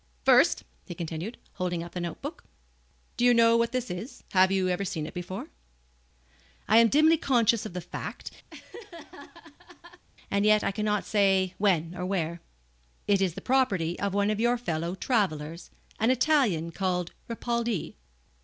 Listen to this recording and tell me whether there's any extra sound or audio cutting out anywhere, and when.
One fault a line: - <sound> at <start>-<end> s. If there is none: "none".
- laugh at 8.5-10.0 s